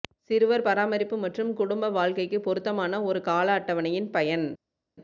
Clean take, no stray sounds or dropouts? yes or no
yes